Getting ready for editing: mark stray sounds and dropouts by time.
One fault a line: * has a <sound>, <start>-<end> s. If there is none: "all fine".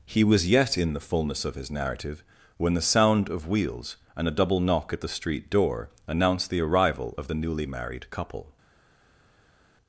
all fine